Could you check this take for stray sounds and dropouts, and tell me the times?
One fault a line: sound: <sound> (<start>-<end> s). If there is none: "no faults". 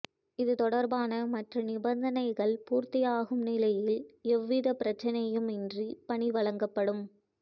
no faults